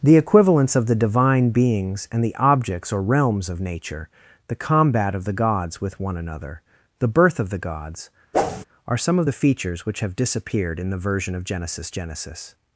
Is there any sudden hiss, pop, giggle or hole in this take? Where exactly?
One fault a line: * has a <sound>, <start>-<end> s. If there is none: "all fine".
* has a whoosh, 8.3-8.6 s